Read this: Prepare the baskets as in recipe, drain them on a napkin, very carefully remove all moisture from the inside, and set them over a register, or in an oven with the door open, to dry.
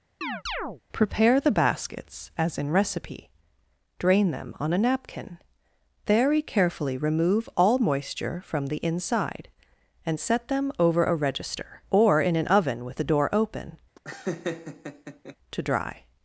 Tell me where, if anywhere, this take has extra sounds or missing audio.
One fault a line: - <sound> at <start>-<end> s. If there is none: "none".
- chirp at 0.2-0.8 s
- laugh at 14.0-15.4 s